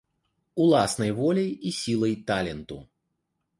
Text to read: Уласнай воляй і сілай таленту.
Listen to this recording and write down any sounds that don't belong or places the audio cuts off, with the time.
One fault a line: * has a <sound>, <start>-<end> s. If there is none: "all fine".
all fine